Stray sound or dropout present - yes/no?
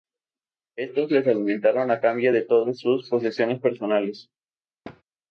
yes